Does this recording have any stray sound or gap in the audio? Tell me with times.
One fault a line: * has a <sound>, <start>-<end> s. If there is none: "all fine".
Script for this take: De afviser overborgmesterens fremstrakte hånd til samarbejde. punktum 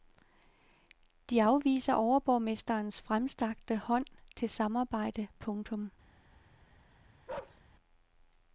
* has a bark, 7.3-7.6 s